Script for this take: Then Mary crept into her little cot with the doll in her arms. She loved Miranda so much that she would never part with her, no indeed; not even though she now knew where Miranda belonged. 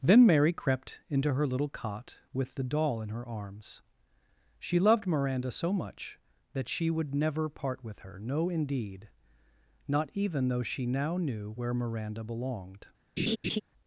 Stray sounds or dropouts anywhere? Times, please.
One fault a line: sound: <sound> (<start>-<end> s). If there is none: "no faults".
sound: laugh (13.2-13.6 s)